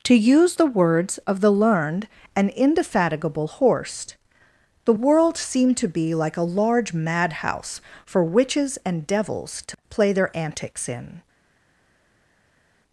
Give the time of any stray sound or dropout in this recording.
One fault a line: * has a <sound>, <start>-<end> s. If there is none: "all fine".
all fine